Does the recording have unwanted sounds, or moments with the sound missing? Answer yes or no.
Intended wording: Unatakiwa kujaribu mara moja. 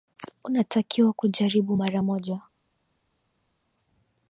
no